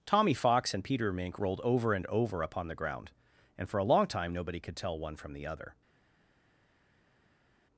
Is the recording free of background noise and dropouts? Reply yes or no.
yes